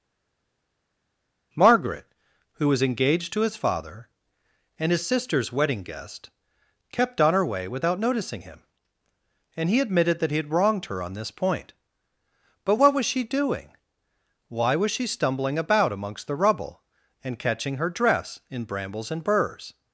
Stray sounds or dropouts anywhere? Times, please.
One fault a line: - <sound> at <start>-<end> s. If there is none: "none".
none